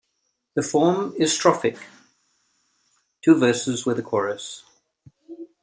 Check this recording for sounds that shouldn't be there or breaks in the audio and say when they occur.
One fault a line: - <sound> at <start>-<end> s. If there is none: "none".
none